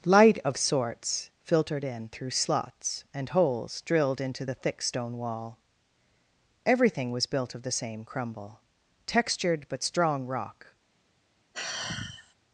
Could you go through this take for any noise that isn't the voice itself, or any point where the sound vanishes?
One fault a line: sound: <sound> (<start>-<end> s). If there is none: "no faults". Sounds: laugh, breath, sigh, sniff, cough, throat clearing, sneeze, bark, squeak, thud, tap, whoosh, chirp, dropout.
sound: sigh (11.5-12.3 s)